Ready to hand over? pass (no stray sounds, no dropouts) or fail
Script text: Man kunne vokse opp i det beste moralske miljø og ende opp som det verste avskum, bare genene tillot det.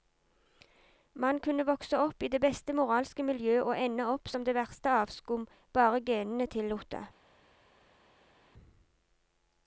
pass